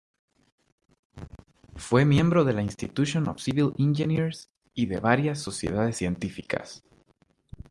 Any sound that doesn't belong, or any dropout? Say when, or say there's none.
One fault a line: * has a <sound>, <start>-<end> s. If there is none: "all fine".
all fine